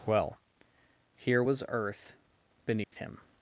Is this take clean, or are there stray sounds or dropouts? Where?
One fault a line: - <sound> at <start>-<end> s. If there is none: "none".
- dropout at 2.8-2.9 s